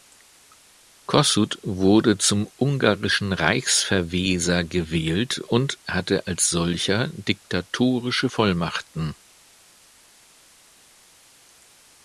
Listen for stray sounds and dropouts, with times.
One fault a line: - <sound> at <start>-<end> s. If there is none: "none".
none